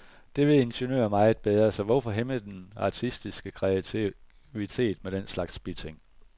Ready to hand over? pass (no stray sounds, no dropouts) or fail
pass